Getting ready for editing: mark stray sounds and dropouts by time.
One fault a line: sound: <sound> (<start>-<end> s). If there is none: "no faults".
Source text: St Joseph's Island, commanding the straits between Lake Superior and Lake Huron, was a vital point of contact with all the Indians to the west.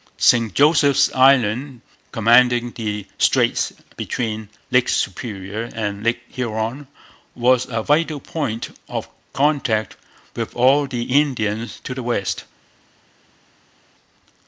no faults